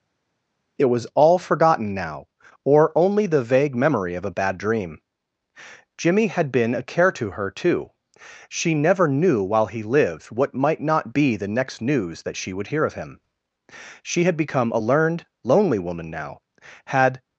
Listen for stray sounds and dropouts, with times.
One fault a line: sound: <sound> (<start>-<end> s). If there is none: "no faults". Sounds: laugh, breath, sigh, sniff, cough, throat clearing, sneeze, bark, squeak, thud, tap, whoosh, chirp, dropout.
no faults